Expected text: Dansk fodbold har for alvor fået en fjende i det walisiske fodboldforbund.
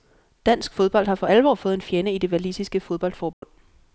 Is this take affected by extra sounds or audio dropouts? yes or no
yes